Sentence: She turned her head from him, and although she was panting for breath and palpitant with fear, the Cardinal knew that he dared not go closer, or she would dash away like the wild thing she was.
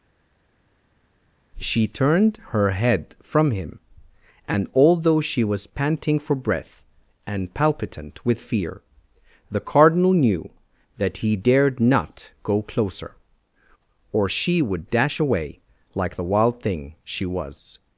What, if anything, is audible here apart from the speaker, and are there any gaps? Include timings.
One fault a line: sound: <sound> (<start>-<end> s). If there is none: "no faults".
no faults